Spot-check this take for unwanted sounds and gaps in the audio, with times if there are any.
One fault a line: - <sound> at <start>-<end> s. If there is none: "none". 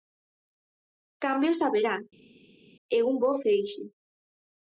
none